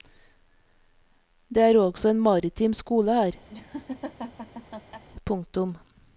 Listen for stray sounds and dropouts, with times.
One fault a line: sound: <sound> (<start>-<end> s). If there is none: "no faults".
sound: laugh (3.5-5.0 s)